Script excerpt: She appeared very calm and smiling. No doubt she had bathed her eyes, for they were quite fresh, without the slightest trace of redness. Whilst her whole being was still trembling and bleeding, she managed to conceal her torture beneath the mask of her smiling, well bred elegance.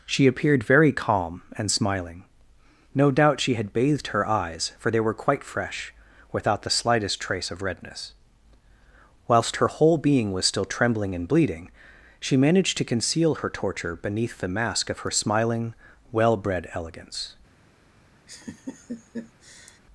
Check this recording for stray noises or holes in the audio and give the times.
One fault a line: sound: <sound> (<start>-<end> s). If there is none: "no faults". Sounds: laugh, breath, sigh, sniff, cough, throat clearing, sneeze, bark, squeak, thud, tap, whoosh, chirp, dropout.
sound: laugh (18.3-19.8 s)